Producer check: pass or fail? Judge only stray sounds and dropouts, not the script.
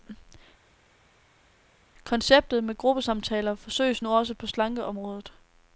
pass